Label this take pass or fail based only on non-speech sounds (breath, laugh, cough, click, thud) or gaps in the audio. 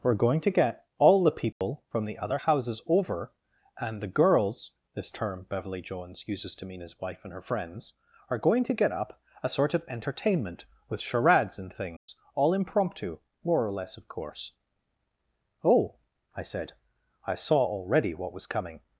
fail